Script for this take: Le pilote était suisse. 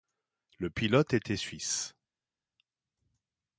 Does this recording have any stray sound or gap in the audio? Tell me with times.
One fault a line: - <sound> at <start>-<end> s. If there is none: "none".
none